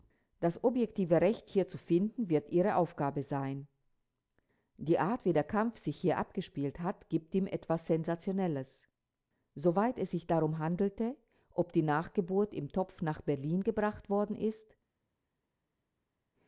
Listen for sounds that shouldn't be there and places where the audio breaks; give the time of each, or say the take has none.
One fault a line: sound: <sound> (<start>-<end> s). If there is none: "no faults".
no faults